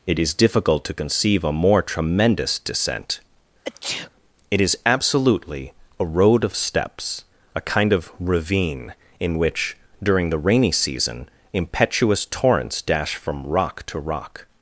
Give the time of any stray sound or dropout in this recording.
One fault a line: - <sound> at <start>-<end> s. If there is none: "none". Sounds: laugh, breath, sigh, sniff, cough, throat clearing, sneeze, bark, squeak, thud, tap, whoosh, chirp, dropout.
- sneeze at 3.6-4.1 s